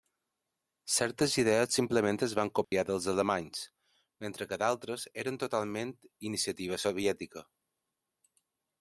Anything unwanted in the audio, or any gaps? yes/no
yes